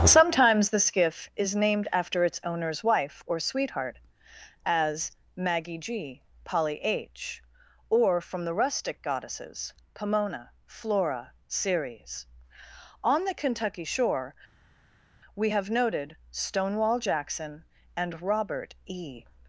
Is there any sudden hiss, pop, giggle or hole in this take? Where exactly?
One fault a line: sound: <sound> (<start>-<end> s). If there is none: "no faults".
no faults